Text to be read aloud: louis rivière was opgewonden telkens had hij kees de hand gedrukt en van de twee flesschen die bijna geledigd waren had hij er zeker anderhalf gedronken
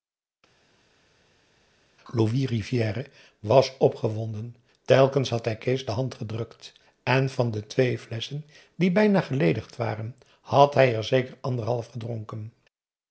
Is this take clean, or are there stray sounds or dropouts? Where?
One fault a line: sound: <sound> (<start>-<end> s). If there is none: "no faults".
no faults